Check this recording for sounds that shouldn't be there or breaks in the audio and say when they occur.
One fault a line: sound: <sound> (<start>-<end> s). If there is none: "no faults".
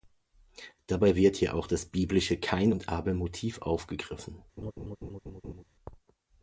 sound: laugh (4.6-5.6 s)